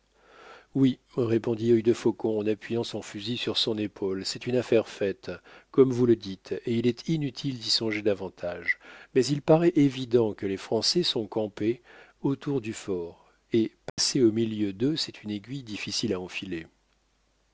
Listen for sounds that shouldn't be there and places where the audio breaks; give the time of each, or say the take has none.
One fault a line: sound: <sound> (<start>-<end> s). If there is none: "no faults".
sound: dropout (13.9-14.0 s)